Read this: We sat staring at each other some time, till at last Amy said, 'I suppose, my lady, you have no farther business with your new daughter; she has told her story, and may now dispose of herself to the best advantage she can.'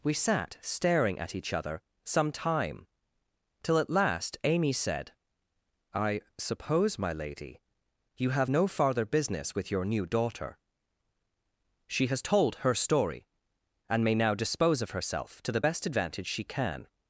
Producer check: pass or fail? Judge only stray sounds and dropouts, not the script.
pass